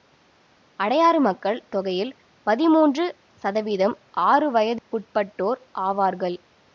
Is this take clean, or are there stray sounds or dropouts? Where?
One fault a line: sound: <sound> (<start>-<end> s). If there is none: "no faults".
sound: dropout (4.8-4.9 s)